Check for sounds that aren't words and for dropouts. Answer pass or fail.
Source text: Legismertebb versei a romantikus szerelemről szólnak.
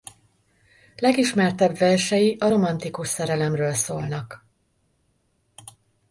pass